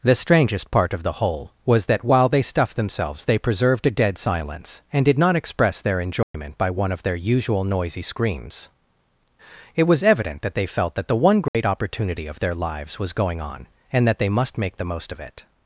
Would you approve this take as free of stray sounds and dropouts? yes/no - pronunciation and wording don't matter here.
no